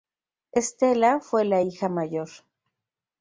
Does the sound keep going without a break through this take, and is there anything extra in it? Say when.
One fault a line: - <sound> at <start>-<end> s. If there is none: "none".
none